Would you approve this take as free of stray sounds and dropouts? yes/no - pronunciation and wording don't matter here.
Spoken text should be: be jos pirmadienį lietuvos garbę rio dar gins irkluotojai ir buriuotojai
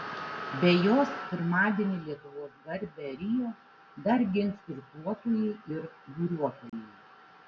no